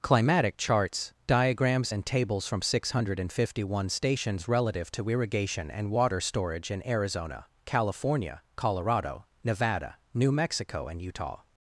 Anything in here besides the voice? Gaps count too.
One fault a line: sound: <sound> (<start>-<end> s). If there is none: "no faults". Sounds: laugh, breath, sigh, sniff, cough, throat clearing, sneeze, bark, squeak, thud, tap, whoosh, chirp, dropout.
no faults